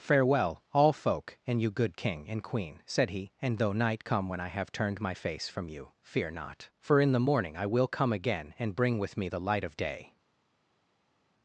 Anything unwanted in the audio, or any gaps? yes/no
no